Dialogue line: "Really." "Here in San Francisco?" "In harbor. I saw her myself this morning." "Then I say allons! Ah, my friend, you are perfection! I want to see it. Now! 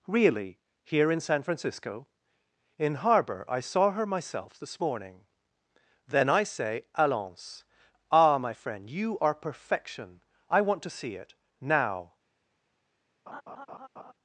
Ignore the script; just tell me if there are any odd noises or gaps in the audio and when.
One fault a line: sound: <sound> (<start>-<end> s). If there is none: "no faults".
sound: laugh (13.3-14.1 s)